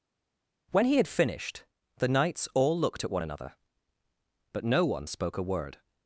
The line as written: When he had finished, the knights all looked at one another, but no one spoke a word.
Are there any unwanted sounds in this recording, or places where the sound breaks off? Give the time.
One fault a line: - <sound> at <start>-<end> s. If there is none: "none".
none